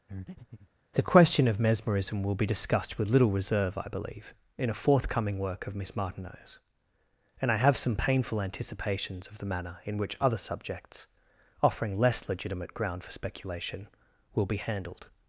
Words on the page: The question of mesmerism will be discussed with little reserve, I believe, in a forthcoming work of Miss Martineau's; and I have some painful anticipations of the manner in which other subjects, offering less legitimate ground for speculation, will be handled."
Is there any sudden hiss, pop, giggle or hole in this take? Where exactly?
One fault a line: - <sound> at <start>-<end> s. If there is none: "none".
- breath at 0.1-0.7 s